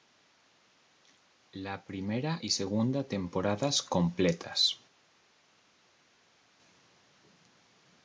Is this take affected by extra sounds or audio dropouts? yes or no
no